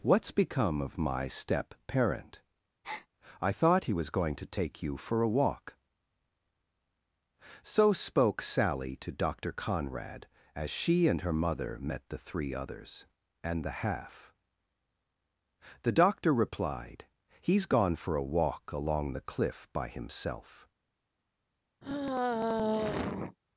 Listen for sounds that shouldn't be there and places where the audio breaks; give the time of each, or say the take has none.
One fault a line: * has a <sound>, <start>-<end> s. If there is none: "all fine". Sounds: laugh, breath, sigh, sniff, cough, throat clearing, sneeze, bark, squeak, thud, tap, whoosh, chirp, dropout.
* has a breath, 2.8-3.1 s
* has a sigh, 21.8-23.4 s